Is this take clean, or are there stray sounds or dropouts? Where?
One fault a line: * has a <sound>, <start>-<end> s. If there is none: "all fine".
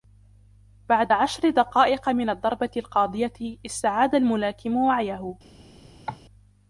* has a cough, 6.1-6.2 s